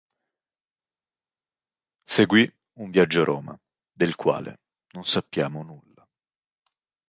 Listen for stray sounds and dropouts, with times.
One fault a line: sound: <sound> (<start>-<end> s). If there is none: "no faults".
no faults